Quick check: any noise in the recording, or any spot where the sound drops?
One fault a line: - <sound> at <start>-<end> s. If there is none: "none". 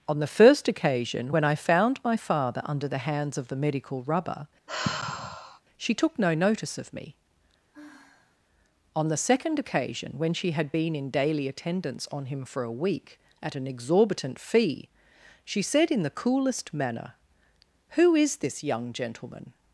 - sigh at 4.7-5.6 s
- sigh at 7.7-8.4 s